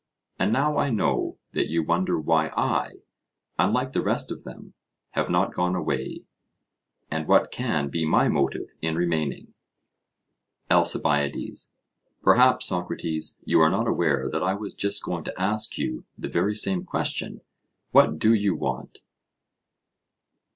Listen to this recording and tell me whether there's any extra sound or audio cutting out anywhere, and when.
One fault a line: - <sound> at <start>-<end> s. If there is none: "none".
none